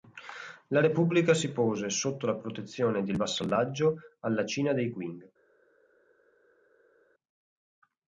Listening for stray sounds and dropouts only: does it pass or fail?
pass